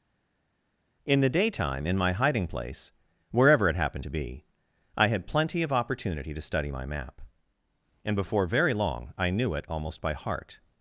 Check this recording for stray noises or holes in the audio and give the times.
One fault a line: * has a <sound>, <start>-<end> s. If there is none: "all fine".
all fine